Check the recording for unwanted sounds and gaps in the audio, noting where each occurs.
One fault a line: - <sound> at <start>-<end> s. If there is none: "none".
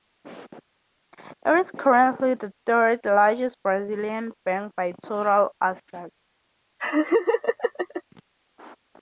- laugh at 6.8-8.0 s